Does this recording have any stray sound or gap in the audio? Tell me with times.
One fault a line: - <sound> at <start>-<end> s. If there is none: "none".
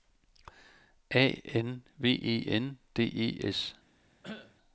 - cough at 4.2-4.6 s